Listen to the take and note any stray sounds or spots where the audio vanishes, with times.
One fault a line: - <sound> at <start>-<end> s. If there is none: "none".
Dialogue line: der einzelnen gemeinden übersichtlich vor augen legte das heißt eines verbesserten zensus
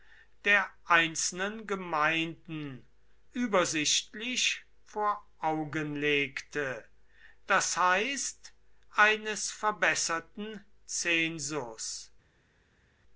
none